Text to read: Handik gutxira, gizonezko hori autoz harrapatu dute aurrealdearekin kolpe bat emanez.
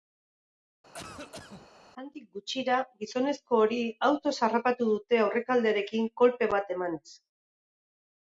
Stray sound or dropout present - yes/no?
yes